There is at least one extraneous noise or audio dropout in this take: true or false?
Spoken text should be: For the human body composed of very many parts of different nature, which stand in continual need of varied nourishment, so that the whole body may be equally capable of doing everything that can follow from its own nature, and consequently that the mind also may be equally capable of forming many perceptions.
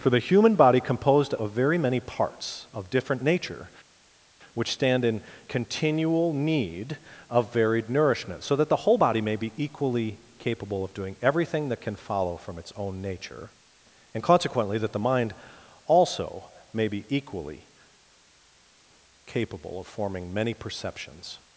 false